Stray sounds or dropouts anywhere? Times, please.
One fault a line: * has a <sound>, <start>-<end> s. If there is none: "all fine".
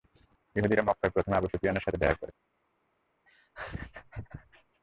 * has a laugh, 3.3-4.8 s